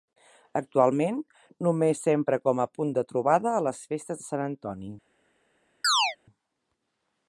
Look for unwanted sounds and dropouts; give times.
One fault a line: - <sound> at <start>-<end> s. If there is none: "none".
- chirp at 5.8-6.2 s